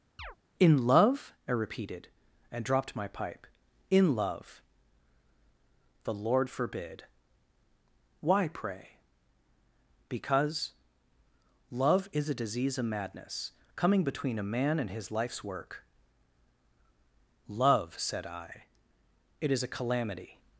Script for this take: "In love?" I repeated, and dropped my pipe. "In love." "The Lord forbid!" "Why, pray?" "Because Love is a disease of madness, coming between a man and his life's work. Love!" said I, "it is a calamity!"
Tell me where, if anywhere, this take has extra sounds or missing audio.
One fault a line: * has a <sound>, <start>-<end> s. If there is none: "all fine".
* has a chirp, 0.2-0.4 s